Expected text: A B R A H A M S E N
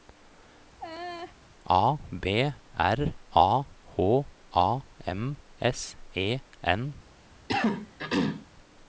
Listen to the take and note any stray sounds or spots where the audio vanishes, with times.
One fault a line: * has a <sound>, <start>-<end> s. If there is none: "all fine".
* has a laugh, 0.8-1.4 s
* has a throat clearing, 7.5-8.5 s